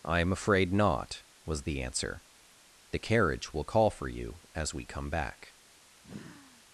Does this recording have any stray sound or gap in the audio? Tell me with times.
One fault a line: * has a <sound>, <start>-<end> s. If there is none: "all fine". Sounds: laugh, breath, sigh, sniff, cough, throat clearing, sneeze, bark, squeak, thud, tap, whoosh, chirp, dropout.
* has a sigh, 6.0-6.6 s